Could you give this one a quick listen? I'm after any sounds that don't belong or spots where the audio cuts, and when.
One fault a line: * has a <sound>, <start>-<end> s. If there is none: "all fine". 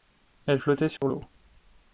* has a dropout, 1.0-1.0 s